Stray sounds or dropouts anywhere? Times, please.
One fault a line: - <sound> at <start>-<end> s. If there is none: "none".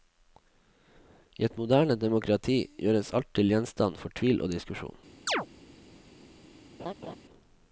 - chirp at 5.3-5.5 s
- laugh at 6.8-7.2 s